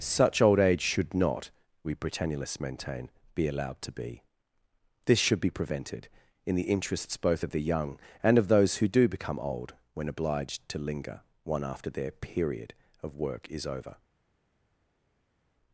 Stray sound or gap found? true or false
false